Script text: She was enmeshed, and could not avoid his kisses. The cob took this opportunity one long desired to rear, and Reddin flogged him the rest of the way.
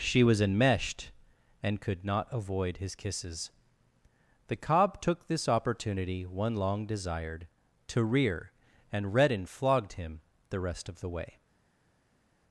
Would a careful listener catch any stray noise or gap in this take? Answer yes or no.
no